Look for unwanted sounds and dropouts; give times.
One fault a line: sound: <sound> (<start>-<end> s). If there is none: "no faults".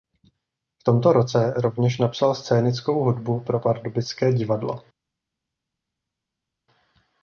no faults